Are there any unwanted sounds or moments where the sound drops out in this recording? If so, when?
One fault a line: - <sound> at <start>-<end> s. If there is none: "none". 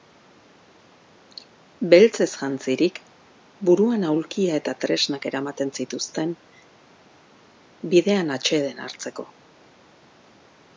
none